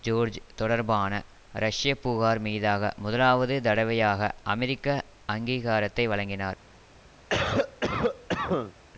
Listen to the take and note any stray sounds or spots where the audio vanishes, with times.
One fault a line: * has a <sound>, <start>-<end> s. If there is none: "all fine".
* has a cough, 7.3-8.7 s